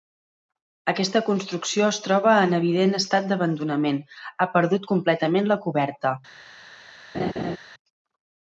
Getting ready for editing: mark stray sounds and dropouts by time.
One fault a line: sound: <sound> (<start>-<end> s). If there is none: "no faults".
sound: laugh (7.1-7.6 s)